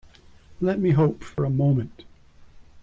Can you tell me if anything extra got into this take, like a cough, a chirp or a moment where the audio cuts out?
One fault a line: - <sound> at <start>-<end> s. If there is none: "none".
- dropout at 1.3-1.4 s